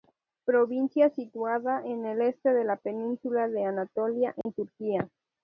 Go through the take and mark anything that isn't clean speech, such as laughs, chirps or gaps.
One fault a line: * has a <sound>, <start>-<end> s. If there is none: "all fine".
* has a dropout, 4.4-4.5 s